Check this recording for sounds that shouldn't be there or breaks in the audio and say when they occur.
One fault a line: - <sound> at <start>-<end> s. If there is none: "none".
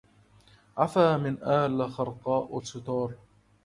none